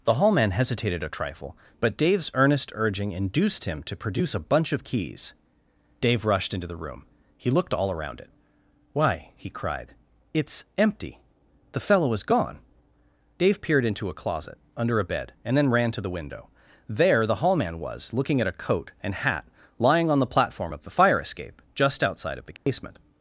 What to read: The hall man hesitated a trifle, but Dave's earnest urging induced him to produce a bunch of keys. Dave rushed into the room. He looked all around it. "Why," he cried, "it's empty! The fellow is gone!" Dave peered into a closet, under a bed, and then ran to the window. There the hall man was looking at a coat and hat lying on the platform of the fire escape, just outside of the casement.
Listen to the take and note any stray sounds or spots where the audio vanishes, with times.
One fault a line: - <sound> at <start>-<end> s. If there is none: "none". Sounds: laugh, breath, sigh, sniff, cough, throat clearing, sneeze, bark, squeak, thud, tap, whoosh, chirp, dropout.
- dropout at 22.6-22.7 s